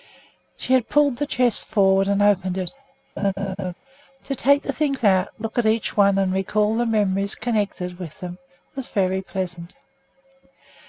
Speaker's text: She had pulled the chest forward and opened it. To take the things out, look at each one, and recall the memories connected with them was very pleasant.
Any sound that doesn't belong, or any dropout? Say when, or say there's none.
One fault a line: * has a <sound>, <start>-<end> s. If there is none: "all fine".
* has a laugh, 3.2-3.7 s